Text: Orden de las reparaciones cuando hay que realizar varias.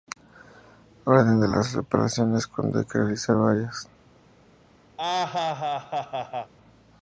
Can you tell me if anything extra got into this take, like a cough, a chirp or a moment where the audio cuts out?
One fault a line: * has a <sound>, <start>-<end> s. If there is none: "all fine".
* has a laugh, 5.0-6.5 s